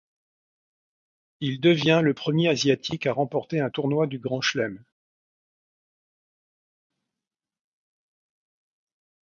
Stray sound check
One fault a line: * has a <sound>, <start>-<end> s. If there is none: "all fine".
all fine